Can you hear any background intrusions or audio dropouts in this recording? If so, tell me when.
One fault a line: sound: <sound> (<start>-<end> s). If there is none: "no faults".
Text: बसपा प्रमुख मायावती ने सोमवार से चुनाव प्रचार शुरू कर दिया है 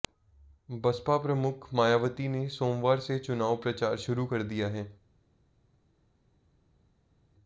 no faults